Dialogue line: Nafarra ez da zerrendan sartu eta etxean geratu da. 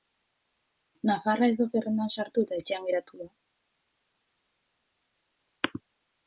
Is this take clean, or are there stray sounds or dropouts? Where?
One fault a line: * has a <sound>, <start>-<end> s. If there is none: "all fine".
all fine